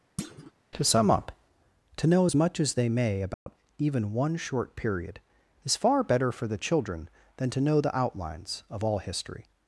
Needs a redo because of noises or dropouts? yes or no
yes